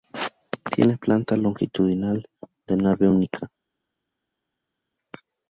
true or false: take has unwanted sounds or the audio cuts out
false